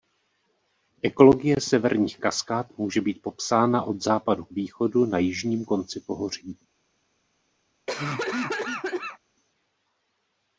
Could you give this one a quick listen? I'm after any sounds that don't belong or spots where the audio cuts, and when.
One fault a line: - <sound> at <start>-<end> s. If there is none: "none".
- cough at 7.9-9.2 s